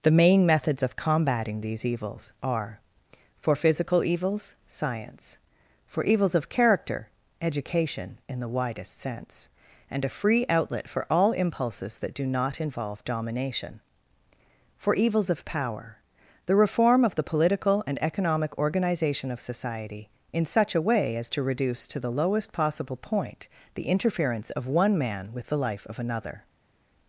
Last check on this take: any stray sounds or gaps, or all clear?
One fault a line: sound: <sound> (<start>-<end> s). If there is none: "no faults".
no faults